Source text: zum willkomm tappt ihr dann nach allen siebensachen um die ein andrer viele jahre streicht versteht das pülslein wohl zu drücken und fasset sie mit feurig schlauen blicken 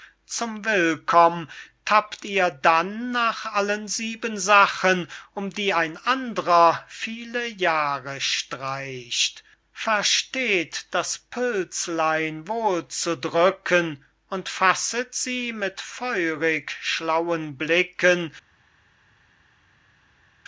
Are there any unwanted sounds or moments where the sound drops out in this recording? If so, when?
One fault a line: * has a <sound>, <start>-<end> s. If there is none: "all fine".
all fine